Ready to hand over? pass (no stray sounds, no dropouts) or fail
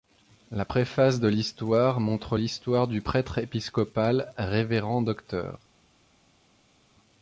pass